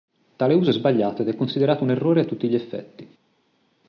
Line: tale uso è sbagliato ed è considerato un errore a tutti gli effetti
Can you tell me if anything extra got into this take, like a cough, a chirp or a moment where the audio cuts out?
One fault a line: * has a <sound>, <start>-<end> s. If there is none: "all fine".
all fine